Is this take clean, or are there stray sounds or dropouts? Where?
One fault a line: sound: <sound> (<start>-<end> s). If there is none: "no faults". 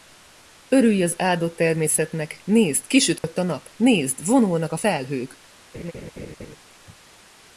sound: dropout (3.2-3.2 s)
sound: laugh (5.7-6.6 s)